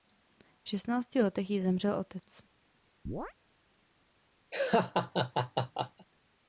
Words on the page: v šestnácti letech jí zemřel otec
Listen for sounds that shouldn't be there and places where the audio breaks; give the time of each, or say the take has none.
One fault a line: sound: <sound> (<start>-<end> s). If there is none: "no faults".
sound: chirp (3.1-3.3 s)
sound: laugh (4.5-6.1 s)